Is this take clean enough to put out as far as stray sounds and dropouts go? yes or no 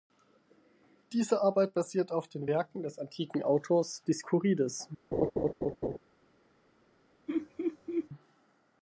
no